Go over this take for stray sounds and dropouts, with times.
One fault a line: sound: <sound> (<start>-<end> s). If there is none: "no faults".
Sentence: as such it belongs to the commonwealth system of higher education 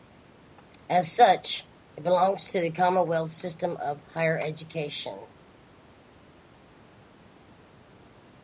no faults